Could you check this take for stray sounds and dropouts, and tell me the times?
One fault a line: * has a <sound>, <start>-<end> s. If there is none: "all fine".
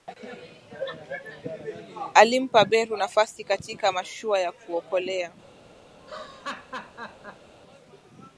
* has a laugh, 6.0-7.5 s